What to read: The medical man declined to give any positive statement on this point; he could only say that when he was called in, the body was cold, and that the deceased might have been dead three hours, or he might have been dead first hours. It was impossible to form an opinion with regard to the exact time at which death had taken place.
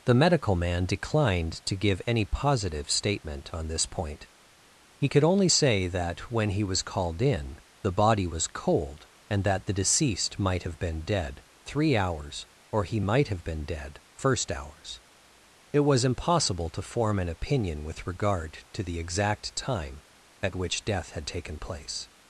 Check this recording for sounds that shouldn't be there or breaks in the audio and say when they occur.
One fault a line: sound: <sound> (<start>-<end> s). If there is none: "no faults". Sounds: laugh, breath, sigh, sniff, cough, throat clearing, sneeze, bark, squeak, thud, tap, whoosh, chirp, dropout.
no faults